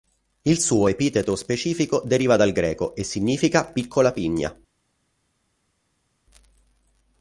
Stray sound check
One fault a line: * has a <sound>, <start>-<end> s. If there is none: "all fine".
all fine